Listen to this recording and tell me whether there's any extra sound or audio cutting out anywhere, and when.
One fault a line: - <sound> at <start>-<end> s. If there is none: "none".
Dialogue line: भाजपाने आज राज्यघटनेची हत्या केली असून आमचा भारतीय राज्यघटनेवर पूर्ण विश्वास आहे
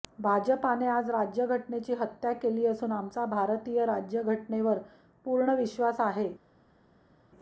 none